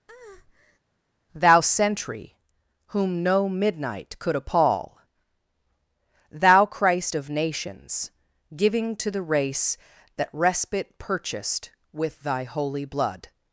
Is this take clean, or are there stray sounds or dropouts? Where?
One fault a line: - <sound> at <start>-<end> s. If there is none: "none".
- breath at 0.1-0.8 s